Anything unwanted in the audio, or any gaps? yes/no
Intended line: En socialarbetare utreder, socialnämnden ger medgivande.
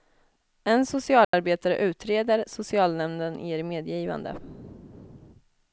yes